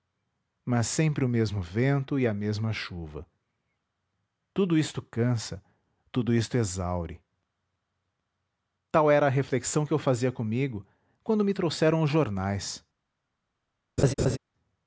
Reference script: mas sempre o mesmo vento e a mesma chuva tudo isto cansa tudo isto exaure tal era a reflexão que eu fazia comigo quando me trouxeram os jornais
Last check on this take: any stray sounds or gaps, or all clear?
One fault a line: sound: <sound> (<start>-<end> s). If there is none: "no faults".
sound: laugh (14.0-14.4 s)